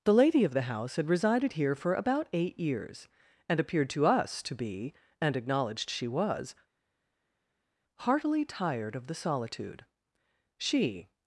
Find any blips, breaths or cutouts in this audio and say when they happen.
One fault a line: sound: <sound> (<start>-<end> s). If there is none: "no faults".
no faults